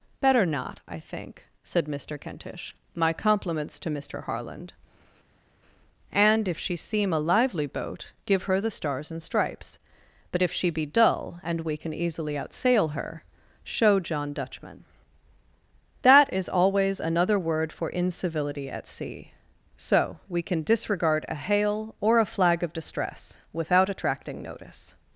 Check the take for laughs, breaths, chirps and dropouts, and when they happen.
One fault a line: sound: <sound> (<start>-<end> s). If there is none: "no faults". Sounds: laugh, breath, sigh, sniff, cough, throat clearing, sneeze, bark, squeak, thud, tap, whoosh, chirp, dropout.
no faults